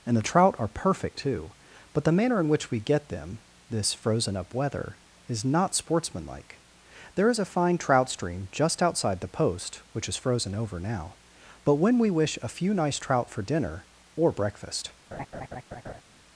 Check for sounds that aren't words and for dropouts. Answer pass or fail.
fail